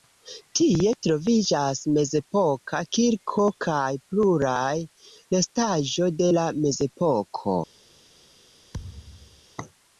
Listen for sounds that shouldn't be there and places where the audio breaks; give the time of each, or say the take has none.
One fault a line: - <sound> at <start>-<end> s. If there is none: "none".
- thud at 8.7-9.4 s